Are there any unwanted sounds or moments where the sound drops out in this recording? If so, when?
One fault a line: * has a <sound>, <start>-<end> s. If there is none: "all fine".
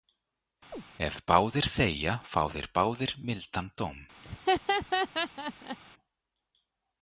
* has a chirp, 0.7-0.8 s
* has a laugh, 4.2-5.8 s